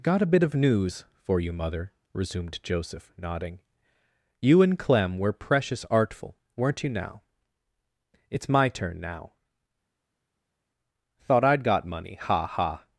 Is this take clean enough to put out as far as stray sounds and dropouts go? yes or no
yes